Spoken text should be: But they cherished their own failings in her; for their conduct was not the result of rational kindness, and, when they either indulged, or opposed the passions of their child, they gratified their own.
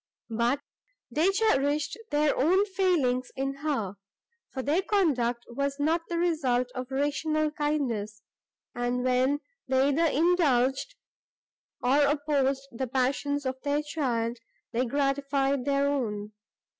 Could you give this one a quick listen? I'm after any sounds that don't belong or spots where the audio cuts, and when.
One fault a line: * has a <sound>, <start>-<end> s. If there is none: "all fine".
all fine